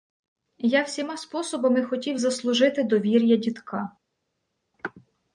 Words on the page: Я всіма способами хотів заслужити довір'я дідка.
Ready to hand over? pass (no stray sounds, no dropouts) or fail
pass